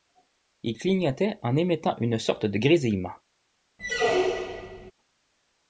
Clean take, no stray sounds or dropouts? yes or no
no